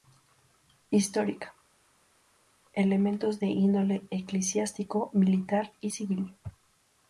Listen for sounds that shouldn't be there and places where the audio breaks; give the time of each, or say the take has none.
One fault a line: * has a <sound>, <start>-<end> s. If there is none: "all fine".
all fine